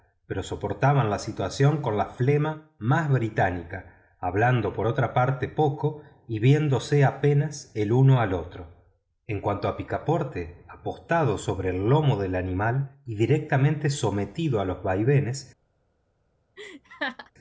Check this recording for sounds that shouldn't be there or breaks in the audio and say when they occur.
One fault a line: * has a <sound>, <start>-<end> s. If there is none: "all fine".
* has a laugh, 16.6-17.3 s